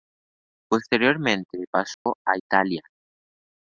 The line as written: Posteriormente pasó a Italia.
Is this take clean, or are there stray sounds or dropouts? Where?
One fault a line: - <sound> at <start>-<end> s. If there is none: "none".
- dropout at 1.9-2.1 s